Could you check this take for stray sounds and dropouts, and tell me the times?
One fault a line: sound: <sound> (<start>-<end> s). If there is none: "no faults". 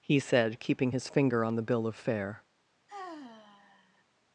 sound: sigh (2.9-4.0 s)